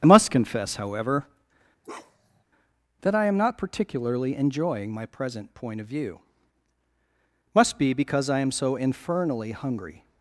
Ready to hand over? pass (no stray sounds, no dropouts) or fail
fail